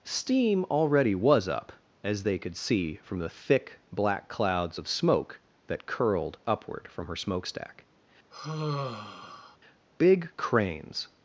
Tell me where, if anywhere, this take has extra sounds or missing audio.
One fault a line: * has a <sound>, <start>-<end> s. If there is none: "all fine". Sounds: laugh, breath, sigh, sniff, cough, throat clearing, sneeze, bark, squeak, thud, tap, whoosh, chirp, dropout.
* has a sigh, 8.3-9.6 s